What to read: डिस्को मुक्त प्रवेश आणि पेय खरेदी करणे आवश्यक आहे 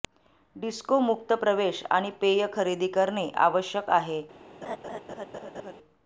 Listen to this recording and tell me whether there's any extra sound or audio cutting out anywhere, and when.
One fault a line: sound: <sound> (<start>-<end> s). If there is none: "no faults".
sound: laugh (4.6-5.7 s)